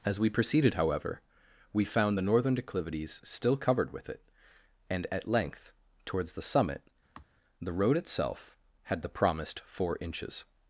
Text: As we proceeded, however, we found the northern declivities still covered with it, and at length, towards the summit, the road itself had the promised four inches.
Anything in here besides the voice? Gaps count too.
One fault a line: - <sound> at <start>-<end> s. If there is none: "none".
- sigh at 7.1-7.2 s